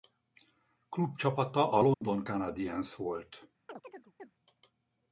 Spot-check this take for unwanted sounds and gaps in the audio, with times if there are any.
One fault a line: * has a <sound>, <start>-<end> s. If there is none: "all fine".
* has a dropout, 1.9-2.0 s
* has a chirp, 3.7-4.3 s